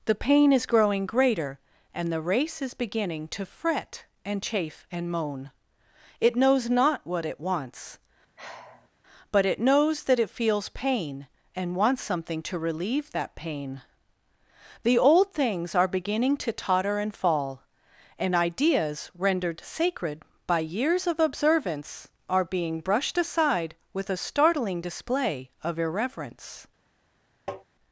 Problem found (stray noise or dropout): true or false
true